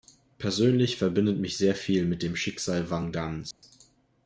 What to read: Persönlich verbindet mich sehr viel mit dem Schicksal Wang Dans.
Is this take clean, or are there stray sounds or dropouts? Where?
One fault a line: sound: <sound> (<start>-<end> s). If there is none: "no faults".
sound: dropout (3.5-3.6 s)